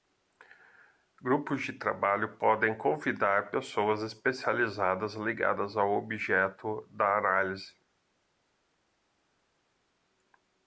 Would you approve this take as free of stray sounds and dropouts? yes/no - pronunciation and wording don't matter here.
yes